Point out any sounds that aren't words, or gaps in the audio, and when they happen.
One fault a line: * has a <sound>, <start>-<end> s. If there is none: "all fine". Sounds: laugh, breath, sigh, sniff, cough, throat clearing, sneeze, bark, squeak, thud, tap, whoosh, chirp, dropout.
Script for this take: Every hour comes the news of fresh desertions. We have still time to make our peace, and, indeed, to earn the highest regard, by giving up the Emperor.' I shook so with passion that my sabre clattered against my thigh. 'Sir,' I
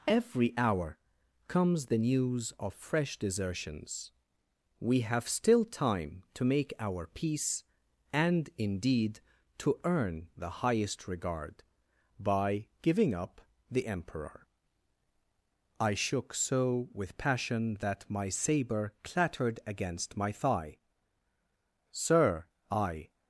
all fine